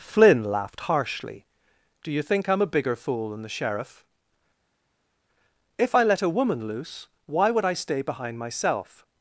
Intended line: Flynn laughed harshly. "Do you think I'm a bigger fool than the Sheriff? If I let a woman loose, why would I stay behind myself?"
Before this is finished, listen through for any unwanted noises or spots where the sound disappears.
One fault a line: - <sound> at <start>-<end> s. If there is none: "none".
none